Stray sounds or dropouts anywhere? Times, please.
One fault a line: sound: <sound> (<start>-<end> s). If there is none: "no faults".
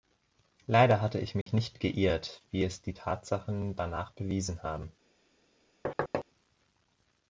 sound: dropout (1.4-1.5 s)
sound: thud (5.8-6.2 s)